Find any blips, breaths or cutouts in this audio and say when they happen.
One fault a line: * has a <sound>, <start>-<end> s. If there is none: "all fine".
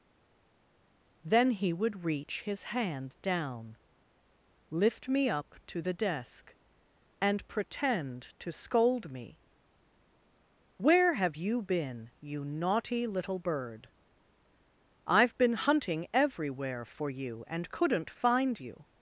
all fine